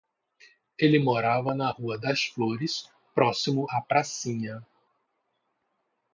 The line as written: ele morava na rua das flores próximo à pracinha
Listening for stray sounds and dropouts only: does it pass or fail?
pass